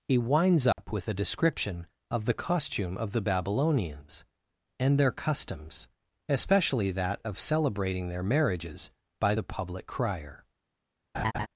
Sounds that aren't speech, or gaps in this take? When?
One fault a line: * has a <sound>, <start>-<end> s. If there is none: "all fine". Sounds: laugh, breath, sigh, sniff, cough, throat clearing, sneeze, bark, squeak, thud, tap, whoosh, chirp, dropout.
* has a dropout, 0.7-0.8 s
* has a laugh, 11.1-11.5 s